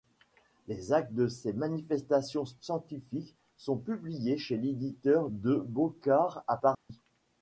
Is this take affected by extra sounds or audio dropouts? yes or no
yes